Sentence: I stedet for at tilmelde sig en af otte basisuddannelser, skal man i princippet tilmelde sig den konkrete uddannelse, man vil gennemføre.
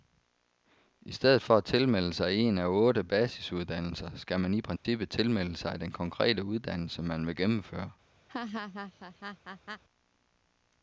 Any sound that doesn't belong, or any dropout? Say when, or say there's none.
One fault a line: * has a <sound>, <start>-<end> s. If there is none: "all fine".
* has a dropout, 4.8-4.9 s
* has a laugh, 8.3-9.8 s